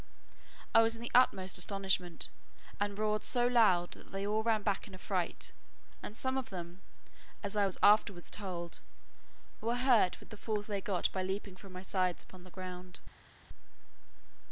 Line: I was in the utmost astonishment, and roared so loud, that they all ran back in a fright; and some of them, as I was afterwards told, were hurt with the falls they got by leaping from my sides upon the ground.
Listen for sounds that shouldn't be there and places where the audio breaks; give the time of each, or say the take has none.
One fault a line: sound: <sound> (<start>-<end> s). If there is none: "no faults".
no faults